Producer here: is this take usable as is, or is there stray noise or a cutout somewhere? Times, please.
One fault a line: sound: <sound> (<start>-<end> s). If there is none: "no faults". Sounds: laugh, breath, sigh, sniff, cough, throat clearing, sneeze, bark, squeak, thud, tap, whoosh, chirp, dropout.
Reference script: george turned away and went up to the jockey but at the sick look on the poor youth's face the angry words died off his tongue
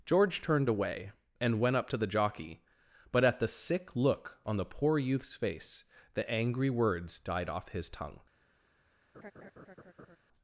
sound: laugh (9.1-10.2 s)